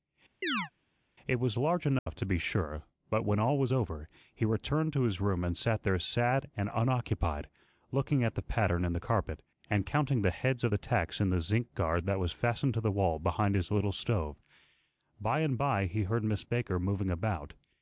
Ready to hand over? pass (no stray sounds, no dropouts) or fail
fail